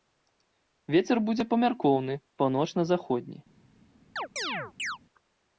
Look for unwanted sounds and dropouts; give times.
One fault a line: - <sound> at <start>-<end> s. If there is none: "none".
- chirp at 4.2-5.0 s